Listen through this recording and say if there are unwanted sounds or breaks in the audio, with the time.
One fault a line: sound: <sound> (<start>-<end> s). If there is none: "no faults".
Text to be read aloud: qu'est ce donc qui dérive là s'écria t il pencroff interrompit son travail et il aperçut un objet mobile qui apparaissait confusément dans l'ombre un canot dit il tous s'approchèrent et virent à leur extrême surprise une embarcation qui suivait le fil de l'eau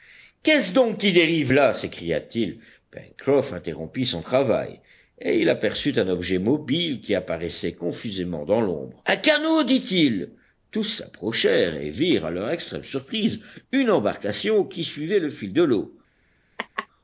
sound: laugh (16.6-16.9 s)